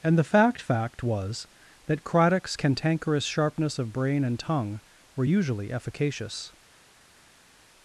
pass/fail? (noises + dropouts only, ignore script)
pass